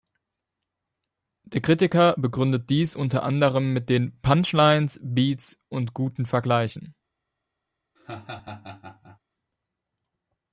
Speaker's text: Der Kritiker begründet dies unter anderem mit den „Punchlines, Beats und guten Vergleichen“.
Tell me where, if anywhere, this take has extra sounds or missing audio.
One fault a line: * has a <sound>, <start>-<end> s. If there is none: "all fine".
* has a laugh, 8.0-9.2 s